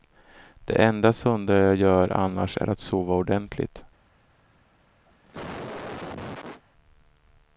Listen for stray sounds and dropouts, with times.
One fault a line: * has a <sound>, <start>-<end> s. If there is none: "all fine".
* has a cough, 5.1-6.6 s